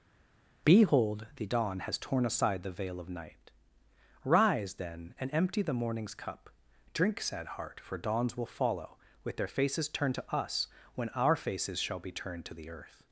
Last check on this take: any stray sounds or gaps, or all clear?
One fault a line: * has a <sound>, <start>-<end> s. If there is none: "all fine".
all fine